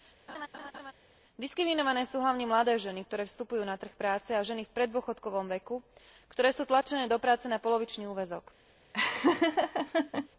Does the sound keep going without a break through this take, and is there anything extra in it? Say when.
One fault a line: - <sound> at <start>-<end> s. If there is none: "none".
- laugh at 0.3-0.9 s
- laugh at 8.9-10.3 s